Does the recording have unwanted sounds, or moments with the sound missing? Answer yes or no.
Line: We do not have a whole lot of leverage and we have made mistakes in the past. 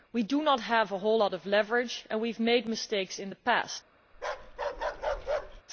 yes